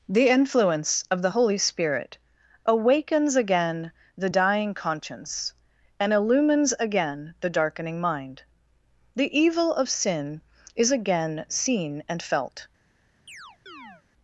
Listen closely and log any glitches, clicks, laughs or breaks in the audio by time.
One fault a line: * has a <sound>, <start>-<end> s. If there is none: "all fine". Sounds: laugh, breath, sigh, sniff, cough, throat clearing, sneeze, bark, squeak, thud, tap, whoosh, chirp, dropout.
* has a chirp, 13.3-14.0 s